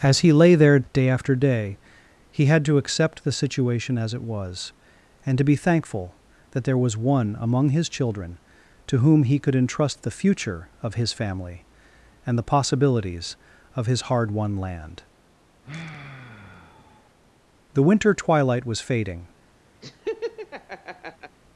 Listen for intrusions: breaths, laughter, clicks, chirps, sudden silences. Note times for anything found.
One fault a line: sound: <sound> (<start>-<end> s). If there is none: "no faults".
sound: sigh (15.6-17.1 s)
sound: laugh (19.8-21.4 s)